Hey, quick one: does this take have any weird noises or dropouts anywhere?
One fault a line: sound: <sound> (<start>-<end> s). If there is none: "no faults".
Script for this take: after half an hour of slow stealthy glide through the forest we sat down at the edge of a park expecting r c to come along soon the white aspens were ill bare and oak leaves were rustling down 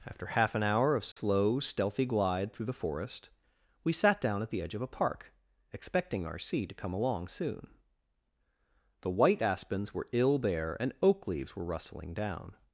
sound: dropout (1.1-1.2 s)